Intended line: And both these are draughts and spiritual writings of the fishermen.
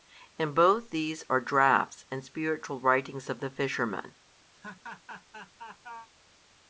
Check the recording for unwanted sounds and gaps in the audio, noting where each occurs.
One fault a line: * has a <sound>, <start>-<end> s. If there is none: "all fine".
* has a laugh, 4.5-6.1 s